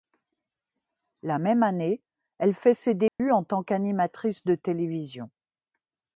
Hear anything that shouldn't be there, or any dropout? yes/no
yes